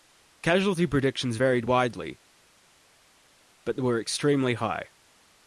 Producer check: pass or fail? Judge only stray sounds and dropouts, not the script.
pass